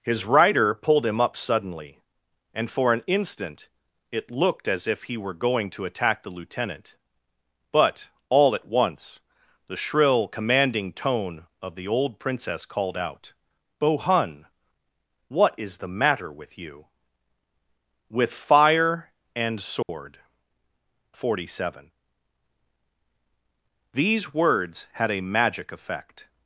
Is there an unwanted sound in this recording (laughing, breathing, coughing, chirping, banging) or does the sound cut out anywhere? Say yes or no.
yes